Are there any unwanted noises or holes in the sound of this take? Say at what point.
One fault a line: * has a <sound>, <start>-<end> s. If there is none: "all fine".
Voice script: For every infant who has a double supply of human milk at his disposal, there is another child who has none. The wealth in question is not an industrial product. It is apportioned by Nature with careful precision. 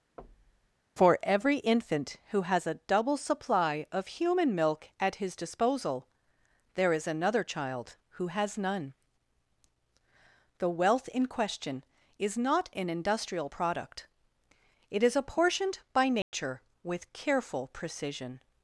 * has a thud, 0.2-0.8 s
* has a dropout, 16.2-16.3 s